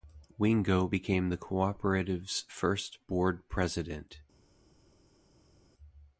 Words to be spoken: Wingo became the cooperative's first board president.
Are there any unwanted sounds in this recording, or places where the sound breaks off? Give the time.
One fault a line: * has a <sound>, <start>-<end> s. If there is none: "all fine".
all fine